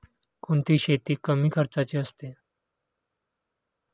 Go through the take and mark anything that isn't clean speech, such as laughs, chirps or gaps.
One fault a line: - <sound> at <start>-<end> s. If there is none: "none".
none